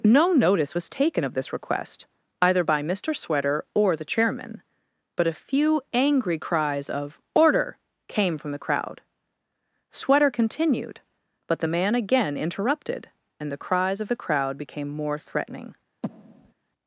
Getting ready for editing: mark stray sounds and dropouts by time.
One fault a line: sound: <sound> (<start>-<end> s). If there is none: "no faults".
sound: breath (16.0-16.5 s)